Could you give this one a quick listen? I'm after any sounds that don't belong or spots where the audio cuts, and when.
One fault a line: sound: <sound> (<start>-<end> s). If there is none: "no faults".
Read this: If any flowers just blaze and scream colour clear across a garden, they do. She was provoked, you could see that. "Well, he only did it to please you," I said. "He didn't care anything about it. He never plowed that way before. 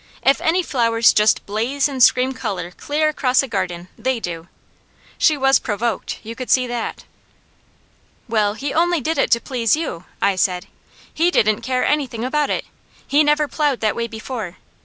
no faults